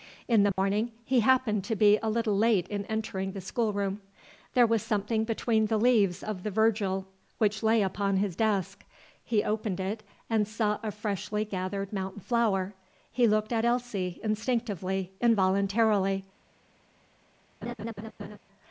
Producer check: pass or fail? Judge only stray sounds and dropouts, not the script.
fail